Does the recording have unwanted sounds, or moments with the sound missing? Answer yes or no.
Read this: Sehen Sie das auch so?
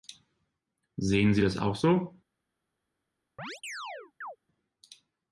yes